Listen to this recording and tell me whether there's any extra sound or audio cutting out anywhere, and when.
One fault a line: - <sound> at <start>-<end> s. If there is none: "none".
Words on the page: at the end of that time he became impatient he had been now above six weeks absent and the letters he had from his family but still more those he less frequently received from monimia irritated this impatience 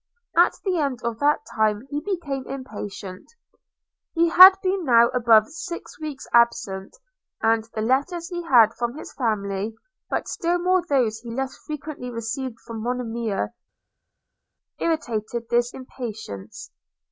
none